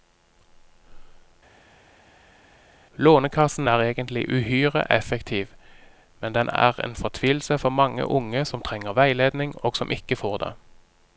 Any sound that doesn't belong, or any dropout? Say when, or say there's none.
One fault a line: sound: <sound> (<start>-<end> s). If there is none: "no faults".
no faults